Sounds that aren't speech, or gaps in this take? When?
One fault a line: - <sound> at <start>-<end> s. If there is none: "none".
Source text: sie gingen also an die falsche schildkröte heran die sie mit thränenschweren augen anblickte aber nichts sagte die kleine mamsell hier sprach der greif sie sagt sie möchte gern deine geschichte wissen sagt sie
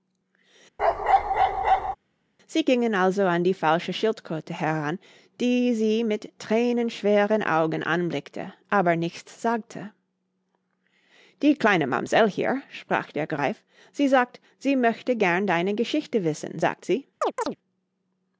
- bark at 0.8-2.0 s
- chirp at 17.2-17.6 s